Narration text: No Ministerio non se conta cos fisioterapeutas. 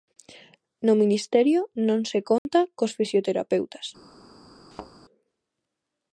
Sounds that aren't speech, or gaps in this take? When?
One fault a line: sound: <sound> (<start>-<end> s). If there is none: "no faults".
sound: dropout (2.4-2.5 s)
sound: thud (4.7-4.9 s)